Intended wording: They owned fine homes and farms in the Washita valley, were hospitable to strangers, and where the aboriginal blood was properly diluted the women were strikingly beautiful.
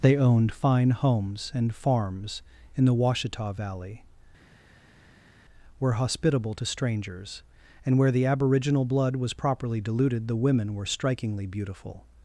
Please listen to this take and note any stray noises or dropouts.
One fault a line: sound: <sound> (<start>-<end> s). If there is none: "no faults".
no faults